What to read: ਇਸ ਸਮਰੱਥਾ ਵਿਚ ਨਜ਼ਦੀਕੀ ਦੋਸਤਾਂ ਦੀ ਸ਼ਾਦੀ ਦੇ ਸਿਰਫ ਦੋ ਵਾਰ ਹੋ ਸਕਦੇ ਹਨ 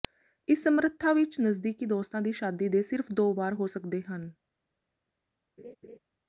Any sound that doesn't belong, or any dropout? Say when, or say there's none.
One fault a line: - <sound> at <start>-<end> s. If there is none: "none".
- laugh at 5.6-6.0 s